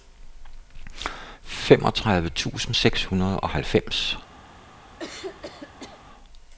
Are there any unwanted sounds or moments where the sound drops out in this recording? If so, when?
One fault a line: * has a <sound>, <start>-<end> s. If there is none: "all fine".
* has a throat clearing, 5.0-6.0 s